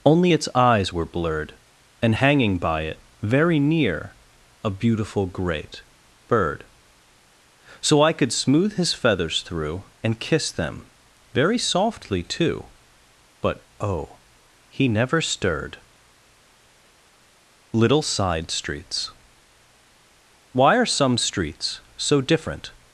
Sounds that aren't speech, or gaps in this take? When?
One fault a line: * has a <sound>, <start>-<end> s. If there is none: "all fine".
all fine